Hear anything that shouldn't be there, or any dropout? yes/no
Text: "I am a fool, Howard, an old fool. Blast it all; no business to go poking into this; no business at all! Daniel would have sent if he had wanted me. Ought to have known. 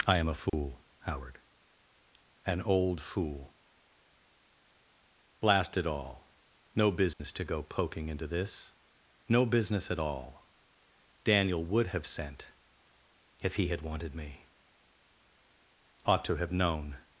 yes